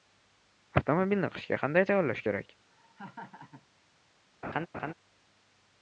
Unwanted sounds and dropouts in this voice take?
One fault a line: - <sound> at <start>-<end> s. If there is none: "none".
- laugh at 2.7-3.7 s
- laugh at 4.4-4.9 s